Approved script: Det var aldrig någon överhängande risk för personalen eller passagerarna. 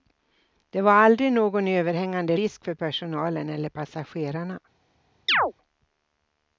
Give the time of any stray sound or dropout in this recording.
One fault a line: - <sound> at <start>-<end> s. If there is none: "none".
- chirp at 5.3-5.5 s